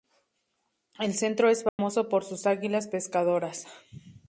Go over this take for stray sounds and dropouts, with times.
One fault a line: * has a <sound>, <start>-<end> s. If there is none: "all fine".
* has a dropout, 1.7-1.8 s